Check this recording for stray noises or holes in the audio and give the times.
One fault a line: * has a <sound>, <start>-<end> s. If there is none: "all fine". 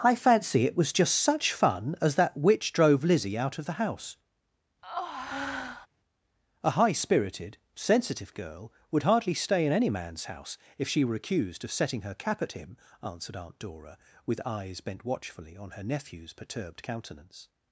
* has a breath, 4.8-5.9 s